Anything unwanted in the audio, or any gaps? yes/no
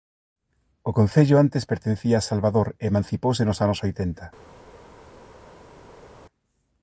no